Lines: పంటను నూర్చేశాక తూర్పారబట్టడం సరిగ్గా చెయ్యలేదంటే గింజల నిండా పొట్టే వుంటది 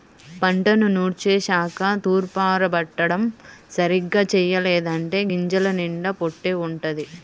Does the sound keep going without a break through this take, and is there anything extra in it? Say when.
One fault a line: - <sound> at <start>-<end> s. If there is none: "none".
none